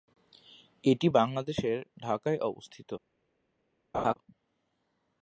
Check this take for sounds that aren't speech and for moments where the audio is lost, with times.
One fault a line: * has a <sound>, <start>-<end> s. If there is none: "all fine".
* has a laugh, 3.9-4.1 s